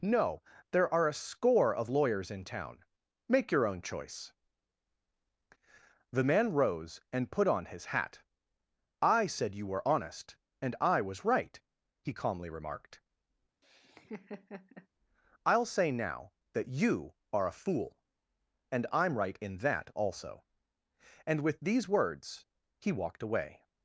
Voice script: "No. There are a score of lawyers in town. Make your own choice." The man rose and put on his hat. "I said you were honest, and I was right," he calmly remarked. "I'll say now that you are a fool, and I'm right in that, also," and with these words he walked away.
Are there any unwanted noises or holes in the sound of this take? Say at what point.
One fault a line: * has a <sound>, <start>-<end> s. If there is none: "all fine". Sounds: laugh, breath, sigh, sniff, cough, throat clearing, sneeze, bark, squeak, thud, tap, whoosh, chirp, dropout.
* has a laugh, 13.6-14.9 s